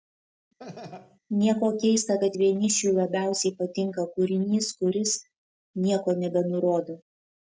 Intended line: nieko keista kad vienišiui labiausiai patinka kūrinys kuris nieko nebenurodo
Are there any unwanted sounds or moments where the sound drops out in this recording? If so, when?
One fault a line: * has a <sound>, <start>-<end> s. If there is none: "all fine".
* has a laugh, 0.6-1.2 s